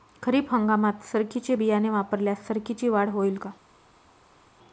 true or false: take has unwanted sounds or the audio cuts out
false